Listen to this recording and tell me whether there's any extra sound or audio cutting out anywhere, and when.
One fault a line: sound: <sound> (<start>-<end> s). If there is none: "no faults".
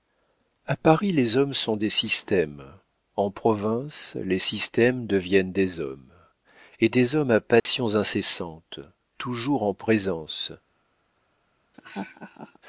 sound: dropout (7.6-7.7 s)
sound: laugh (11.7-12.6 s)